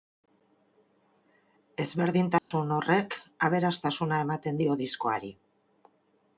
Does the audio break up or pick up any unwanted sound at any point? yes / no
yes